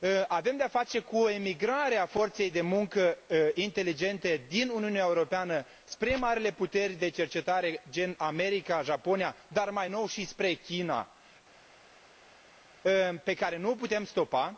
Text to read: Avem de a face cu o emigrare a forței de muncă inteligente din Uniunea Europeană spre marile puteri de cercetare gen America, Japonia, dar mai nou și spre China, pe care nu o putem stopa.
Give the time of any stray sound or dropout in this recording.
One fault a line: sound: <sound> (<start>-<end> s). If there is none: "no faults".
no faults